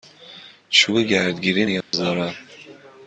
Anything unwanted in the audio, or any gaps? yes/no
yes